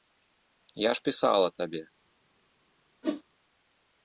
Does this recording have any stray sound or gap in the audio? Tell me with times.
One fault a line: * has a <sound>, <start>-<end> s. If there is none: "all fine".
* has a whoosh, 3.0-3.2 s